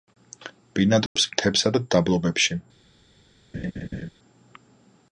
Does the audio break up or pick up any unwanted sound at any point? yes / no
yes